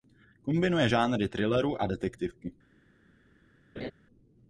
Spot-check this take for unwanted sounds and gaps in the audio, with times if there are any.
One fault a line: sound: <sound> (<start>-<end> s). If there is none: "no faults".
sound: laugh (3.8-3.9 s)